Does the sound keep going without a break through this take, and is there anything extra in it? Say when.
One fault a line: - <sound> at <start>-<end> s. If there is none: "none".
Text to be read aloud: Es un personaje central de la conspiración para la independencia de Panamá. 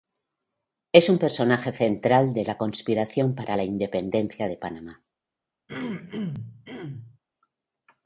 - throat clearing at 5.7-7.2 s